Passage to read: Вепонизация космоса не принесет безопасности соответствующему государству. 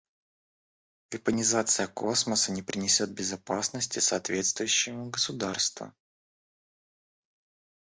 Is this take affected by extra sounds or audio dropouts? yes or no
no